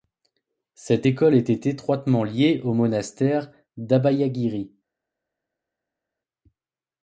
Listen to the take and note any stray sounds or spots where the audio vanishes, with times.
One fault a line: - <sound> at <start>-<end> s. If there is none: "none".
none